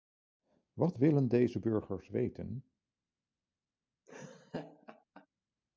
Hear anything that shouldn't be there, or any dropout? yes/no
yes